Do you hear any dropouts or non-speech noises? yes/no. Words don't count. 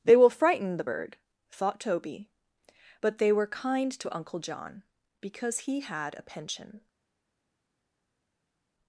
no